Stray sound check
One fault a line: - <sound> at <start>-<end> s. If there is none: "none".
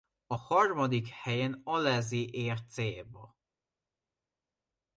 none